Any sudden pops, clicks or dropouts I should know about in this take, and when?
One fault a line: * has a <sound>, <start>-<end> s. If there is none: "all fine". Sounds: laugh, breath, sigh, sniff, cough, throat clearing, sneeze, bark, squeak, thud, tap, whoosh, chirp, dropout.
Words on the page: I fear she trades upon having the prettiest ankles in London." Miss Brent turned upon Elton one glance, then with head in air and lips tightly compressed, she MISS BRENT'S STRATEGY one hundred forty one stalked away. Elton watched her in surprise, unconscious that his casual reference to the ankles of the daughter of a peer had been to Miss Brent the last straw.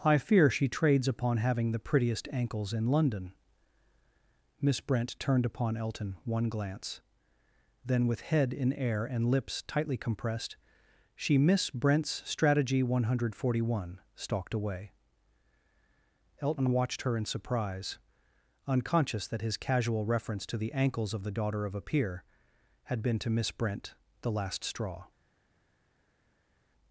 all fine